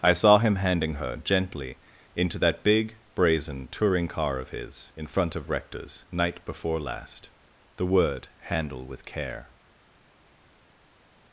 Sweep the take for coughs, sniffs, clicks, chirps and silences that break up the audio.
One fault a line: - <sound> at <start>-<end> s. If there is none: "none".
none